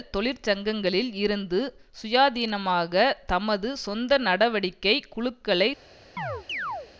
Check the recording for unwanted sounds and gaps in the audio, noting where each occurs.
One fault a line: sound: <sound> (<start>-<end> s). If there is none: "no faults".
sound: chirp (6.2-6.9 s)